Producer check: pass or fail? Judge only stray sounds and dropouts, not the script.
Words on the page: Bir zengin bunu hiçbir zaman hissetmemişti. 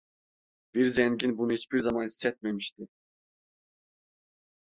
pass